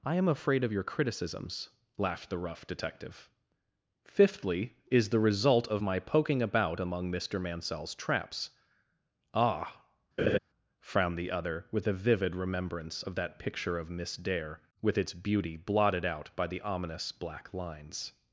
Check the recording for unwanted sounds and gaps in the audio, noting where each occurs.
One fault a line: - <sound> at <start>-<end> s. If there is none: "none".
- laugh at 10.2-10.4 s